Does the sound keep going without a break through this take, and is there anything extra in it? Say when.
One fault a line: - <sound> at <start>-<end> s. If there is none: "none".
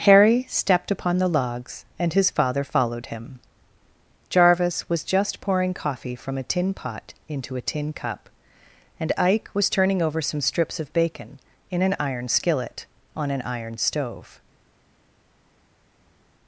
none